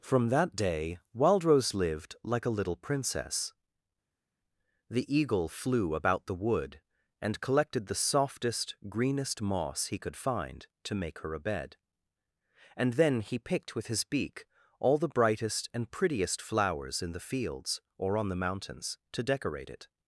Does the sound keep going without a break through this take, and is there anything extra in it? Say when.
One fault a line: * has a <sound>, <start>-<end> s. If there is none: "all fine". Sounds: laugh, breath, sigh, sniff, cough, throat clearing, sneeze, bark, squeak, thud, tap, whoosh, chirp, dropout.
all fine